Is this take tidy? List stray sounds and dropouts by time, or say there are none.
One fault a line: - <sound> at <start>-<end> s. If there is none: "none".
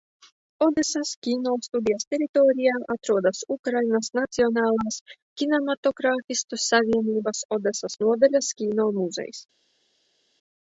none